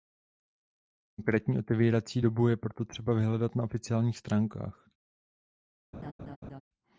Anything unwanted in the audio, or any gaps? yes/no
yes